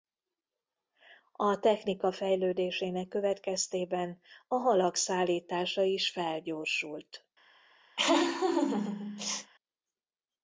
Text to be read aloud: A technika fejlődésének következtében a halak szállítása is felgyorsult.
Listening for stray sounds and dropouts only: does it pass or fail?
fail